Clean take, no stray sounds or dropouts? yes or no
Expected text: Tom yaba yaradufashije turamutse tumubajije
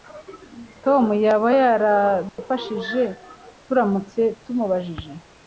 no